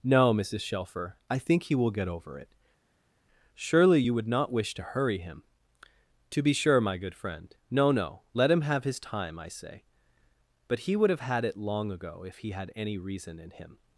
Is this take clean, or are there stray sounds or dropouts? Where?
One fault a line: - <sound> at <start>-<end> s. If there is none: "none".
none